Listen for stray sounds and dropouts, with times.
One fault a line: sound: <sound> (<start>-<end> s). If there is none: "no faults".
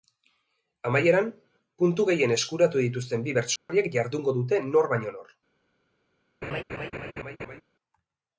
sound: dropout (3.6-3.7 s)
sound: laugh (6.4-7.6 s)